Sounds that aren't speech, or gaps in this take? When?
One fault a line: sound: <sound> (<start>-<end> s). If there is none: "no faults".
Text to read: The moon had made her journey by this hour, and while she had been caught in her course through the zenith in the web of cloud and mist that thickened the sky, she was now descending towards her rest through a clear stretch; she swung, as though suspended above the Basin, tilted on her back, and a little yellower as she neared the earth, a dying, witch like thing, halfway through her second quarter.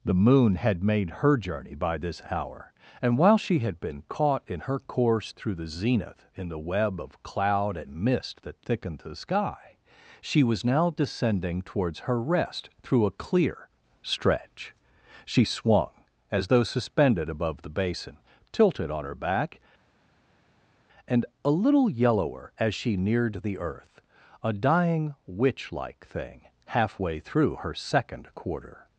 no faults